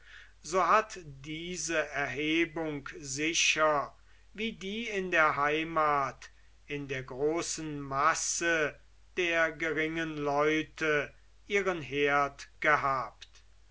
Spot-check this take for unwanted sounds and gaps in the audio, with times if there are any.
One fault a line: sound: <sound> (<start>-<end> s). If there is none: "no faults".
no faults